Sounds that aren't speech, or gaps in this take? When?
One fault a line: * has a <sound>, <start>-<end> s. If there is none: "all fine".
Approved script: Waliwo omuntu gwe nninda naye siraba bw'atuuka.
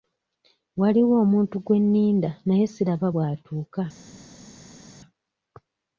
all fine